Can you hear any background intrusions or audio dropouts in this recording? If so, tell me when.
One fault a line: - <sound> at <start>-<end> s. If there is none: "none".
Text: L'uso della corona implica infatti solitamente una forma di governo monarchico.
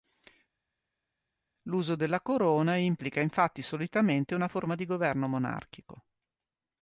none